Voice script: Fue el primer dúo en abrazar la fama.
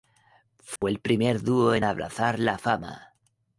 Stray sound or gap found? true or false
true